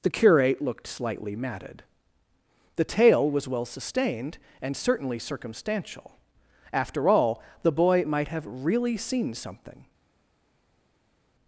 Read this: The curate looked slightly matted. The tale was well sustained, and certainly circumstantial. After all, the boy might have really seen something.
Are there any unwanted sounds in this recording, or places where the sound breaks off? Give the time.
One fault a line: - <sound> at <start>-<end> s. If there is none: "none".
none